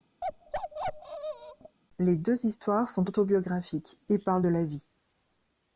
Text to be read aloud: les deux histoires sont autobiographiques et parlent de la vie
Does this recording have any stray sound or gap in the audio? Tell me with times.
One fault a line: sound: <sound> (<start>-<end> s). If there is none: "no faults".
sound: bark (0.2-1.8 s)